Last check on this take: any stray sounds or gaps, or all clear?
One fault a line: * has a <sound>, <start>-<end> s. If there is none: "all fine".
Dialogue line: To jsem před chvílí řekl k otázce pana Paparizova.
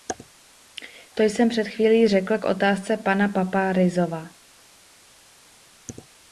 all fine